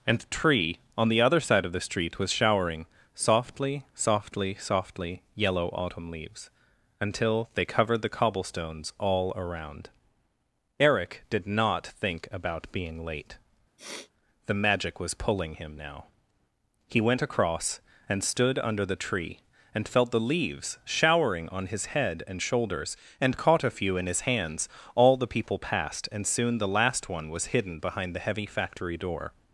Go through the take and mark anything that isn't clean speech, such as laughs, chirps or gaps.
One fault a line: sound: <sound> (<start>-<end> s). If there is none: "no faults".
sound: sniff (13.8-14.1 s)